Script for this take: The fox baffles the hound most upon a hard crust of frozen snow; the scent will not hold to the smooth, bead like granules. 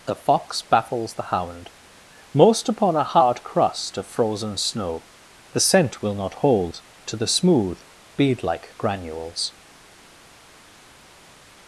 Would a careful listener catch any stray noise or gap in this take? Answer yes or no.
no